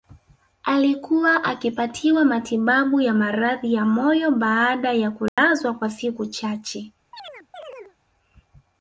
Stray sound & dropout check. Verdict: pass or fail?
fail